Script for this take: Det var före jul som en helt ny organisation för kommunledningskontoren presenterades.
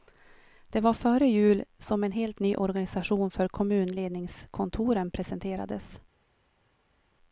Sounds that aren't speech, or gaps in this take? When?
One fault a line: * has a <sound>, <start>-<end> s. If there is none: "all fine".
all fine